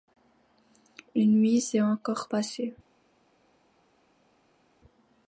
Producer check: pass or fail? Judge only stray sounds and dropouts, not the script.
pass